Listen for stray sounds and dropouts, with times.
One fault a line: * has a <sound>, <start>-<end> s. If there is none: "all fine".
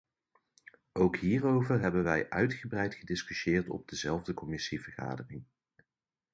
all fine